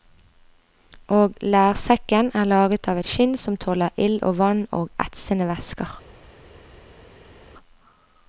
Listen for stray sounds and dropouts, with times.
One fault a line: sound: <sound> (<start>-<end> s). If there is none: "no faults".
no faults